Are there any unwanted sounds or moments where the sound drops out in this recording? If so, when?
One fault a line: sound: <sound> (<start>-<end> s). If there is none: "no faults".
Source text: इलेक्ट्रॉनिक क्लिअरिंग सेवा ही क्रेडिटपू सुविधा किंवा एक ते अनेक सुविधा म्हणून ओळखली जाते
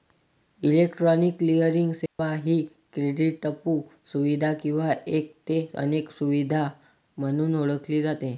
sound: dropout (2.1-2.2 s)